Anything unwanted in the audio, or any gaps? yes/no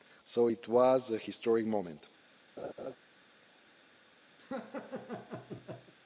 yes